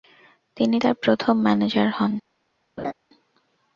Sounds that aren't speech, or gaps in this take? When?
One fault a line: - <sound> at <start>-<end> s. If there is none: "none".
- laugh at 2.8-2.9 s